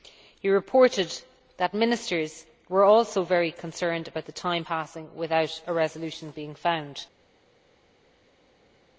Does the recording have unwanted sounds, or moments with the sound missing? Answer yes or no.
no